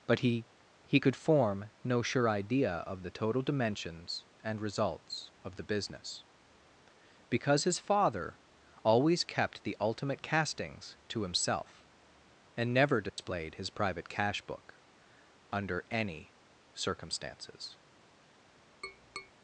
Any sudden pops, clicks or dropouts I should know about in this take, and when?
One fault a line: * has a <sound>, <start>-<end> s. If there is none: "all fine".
* has a dropout, 13.1-13.2 s
* has a tap, 18.8-19.3 s